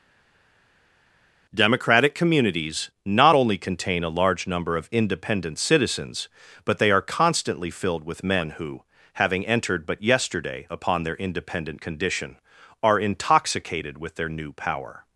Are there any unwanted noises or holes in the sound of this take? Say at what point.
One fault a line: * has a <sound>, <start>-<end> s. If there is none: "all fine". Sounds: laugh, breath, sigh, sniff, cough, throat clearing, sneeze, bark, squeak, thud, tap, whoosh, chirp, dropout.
all fine